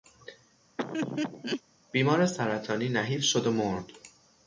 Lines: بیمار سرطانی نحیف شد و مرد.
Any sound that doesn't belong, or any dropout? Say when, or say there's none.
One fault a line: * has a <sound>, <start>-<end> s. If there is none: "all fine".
* has a laugh, 0.8-1.6 s